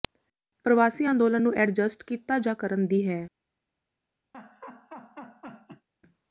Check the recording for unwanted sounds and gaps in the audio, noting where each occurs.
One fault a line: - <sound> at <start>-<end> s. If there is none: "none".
- laugh at 4.3-5.9 s